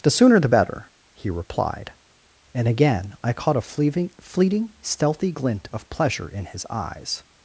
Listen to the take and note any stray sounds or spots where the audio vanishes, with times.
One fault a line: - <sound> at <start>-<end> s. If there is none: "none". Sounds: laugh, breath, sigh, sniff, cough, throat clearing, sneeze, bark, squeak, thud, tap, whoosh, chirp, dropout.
none